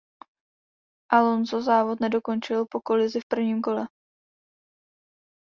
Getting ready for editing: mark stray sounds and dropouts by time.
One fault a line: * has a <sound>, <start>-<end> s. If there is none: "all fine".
all fine